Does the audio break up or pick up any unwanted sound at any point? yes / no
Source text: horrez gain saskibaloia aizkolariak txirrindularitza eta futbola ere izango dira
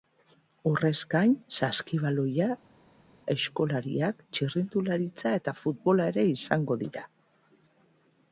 no